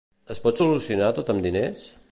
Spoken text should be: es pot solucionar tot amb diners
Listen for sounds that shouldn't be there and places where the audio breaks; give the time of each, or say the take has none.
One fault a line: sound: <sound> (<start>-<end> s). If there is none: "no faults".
no faults